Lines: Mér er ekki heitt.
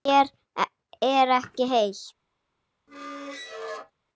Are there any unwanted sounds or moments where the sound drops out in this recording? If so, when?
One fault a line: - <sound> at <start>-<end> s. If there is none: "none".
- squeak at 2.9-3.9 s